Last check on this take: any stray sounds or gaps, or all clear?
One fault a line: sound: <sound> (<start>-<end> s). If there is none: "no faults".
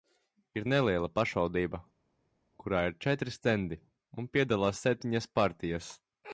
no faults